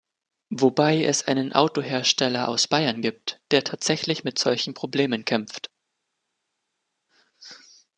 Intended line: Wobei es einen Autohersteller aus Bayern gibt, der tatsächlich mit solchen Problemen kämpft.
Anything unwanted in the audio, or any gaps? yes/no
no